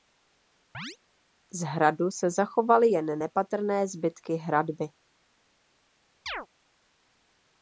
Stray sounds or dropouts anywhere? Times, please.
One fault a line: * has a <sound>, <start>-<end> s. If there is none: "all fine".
* has a chirp, 0.7-1.0 s
* has a chirp, 6.3-6.5 s